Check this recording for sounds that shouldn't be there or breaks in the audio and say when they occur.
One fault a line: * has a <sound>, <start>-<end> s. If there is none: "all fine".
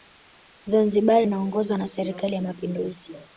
all fine